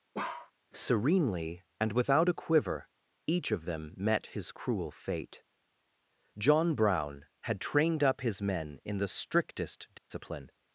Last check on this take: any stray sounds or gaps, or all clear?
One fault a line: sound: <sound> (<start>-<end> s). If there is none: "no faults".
sound: bark (0.1-0.5 s)
sound: dropout (10.0-10.1 s)